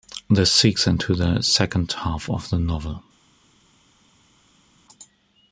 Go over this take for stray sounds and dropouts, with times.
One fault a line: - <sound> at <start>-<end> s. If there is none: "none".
none